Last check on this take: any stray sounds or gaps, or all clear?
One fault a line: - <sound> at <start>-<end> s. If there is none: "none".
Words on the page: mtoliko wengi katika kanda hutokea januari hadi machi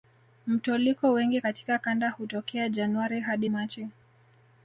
none